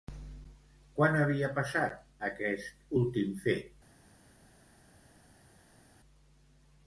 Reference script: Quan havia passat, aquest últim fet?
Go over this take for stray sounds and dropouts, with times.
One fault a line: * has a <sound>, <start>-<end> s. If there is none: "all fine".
all fine